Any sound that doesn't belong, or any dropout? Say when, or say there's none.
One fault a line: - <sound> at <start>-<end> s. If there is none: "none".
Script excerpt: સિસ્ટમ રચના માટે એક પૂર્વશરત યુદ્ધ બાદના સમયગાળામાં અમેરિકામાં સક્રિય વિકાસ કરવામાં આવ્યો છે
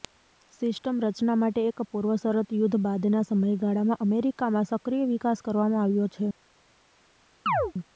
- chirp at 7.5-7.7 s